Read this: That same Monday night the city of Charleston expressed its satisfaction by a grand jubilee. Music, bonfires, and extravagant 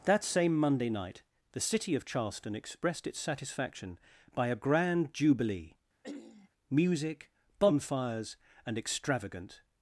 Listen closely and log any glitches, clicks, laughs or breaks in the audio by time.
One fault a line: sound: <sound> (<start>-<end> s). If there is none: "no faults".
sound: throat clearing (6.0-6.5 s)